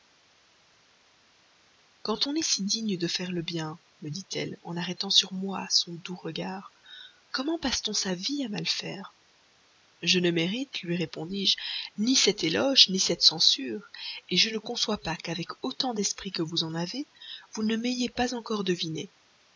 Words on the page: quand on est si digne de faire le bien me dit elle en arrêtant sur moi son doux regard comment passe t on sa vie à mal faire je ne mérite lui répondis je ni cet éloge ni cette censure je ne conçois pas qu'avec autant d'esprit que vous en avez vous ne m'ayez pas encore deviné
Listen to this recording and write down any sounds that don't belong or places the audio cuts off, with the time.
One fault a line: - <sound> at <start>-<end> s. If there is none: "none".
none